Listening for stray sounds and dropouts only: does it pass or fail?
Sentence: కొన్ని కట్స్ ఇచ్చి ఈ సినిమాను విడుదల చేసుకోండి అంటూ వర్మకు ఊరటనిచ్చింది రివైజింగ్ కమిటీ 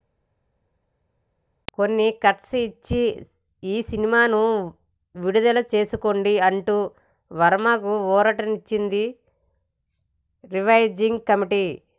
pass